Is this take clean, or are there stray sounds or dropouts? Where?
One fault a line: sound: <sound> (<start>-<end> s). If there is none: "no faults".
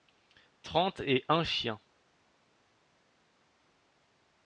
no faults